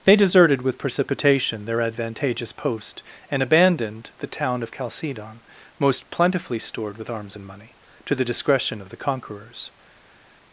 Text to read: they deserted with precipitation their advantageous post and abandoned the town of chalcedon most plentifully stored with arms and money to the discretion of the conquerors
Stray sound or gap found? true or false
false